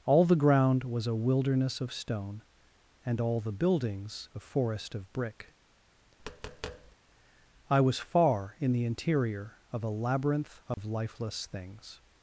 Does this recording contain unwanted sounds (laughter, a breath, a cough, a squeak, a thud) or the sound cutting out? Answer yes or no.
yes